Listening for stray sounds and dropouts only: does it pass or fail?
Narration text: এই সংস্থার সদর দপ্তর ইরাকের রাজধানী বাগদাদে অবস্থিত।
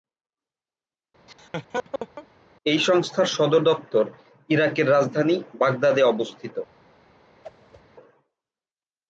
fail